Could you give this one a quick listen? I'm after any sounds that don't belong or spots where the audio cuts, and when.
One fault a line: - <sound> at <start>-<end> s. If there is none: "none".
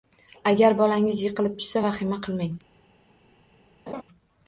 - laugh at 3.9-4.0 s